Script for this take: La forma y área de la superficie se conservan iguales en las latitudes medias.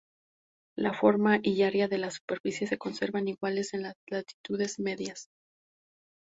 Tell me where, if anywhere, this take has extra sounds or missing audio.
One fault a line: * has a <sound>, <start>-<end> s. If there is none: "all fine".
all fine